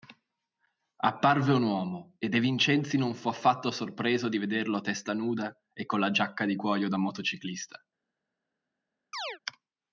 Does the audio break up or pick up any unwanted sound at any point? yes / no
yes